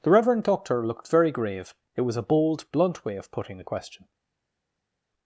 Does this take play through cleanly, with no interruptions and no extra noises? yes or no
yes